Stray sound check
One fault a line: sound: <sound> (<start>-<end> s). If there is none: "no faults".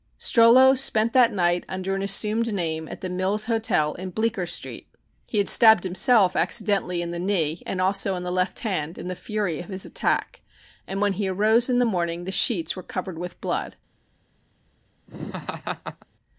sound: laugh (15.1-16.1 s)